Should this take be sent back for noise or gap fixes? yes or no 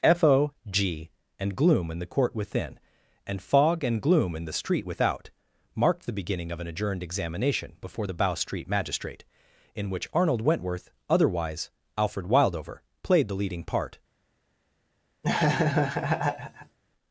yes